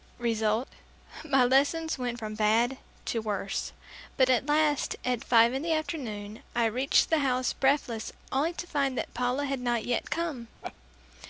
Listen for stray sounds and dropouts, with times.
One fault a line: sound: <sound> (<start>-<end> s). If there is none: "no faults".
sound: laugh (10.6-10.7 s)